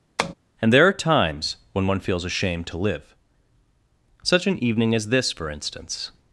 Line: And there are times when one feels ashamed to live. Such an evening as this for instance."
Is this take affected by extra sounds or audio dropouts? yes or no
yes